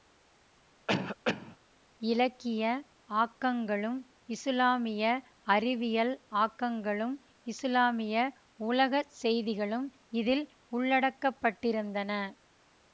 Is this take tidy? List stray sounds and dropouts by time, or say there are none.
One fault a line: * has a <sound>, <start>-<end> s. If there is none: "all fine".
* has a cough, 0.9-1.6 s